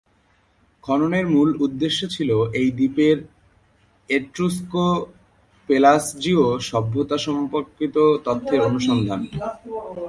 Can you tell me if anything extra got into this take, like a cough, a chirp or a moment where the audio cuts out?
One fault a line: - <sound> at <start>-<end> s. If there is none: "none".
none